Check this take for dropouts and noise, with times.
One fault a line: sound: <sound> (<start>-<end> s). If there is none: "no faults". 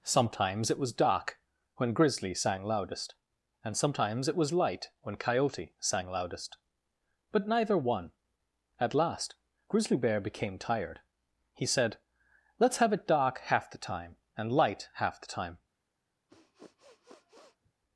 sound: sniff (16.3-17.7 s)